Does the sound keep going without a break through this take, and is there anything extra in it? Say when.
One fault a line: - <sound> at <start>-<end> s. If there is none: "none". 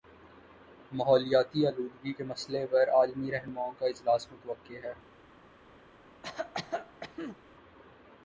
- cough at 6.2-7.4 s